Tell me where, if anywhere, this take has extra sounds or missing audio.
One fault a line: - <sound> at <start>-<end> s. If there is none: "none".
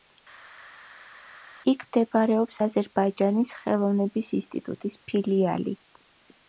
none